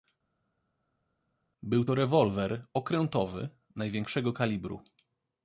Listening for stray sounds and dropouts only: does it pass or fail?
pass